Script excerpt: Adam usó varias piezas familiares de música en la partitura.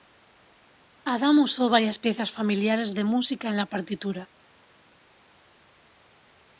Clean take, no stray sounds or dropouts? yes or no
yes